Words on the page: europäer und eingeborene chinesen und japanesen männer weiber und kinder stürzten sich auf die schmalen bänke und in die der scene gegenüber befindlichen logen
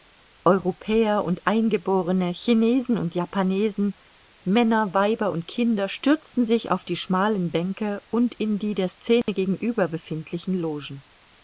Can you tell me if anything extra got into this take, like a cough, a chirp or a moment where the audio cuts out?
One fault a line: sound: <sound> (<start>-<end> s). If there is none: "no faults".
sound: dropout (9.2-9.3 s)